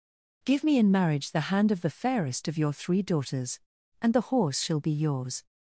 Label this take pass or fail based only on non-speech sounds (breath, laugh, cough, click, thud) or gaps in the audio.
pass